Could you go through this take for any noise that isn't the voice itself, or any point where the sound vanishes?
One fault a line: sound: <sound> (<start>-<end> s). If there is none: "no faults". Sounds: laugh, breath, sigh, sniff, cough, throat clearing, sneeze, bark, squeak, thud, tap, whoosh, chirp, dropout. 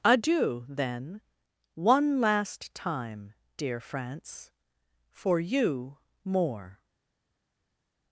no faults